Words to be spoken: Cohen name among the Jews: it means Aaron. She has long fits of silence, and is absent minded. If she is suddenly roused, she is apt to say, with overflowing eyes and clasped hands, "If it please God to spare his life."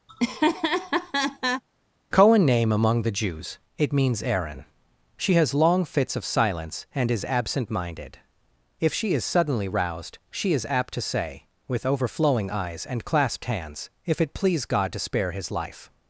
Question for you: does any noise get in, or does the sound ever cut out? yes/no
yes